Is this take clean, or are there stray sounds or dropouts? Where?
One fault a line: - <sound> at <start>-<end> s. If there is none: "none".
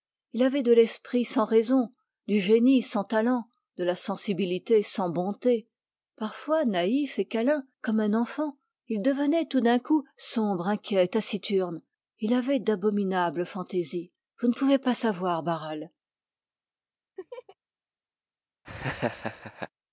- laugh at 17.2-17.6 s
- laugh at 18.6-19.7 s